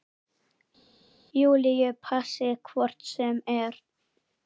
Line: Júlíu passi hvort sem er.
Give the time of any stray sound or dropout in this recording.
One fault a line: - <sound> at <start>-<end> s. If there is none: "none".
none